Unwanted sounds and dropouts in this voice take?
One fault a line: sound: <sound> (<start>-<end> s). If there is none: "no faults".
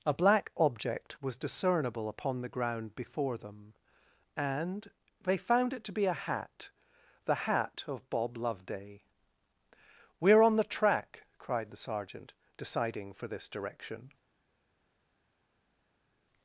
no faults